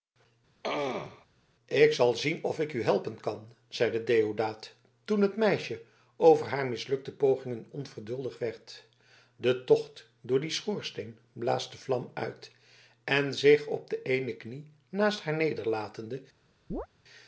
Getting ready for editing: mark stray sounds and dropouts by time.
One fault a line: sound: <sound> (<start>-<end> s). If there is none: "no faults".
sound: throat clearing (0.6-1.3 s)
sound: chirp (16.7-16.9 s)